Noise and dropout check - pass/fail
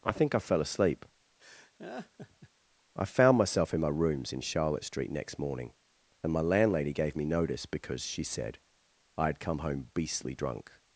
fail